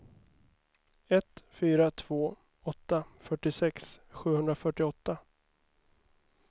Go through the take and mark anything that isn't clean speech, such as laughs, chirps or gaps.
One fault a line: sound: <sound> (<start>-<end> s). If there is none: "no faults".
no faults